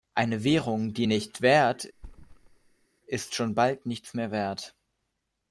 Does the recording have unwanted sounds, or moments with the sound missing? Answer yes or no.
yes